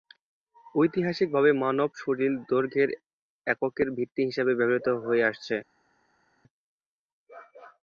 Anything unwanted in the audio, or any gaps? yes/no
no